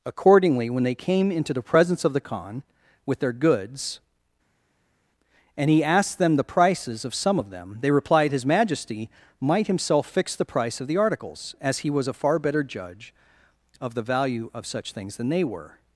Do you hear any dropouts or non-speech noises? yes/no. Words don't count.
no